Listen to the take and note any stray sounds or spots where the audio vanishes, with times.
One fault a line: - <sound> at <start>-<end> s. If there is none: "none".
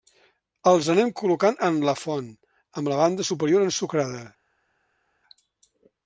none